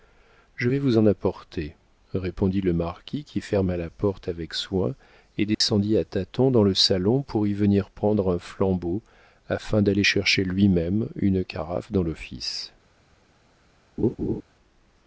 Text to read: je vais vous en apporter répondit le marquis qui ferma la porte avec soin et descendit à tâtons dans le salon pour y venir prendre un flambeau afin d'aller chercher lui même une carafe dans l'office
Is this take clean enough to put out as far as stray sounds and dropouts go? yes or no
no